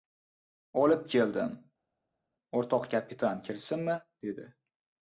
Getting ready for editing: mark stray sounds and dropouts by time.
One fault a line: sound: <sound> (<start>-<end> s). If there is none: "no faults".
no faults